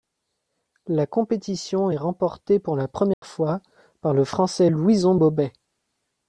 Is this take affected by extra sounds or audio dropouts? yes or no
yes